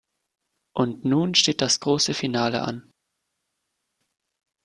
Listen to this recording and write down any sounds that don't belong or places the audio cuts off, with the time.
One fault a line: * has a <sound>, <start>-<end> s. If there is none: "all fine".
all fine